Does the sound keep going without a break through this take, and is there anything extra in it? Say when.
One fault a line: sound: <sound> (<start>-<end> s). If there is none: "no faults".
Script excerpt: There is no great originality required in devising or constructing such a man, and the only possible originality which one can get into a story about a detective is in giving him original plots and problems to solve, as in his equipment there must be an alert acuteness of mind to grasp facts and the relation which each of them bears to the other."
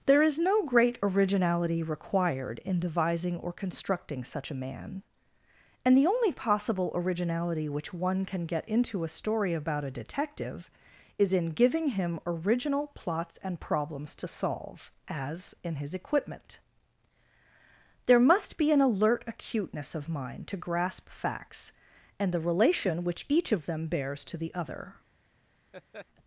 sound: laugh (25.7-26.1 s)